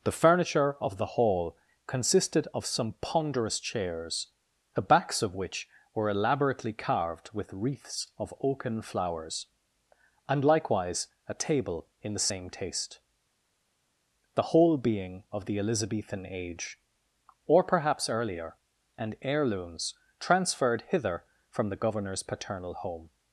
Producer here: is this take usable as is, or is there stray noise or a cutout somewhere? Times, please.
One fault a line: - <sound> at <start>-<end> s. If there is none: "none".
none